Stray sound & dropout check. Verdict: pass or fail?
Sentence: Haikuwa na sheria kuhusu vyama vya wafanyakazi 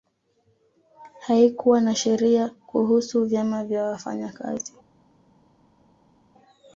pass